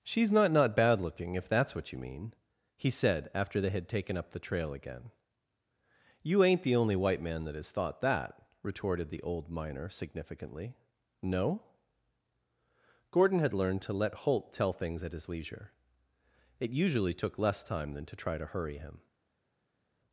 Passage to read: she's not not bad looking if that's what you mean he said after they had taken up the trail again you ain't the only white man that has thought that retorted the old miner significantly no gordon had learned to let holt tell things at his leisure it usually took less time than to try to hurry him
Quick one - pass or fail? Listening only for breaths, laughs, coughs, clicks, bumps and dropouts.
pass